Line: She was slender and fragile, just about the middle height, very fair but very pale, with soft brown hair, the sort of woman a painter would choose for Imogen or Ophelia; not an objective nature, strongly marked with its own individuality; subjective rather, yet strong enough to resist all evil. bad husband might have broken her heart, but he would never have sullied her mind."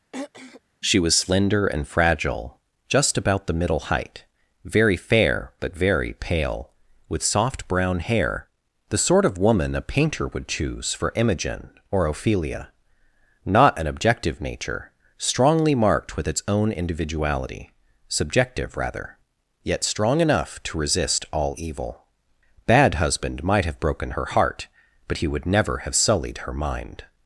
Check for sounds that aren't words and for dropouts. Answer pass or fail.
fail